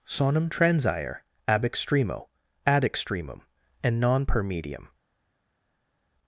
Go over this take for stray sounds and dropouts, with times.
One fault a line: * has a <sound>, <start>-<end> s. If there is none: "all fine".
all fine